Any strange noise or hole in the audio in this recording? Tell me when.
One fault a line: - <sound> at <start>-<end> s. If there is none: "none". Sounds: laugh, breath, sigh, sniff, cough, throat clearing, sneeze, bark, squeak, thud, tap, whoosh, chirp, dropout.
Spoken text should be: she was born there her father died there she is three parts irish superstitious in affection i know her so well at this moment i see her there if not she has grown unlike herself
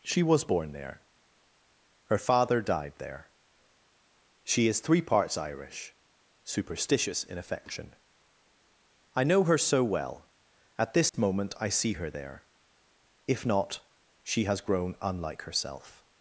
- dropout at 11.1-11.1 s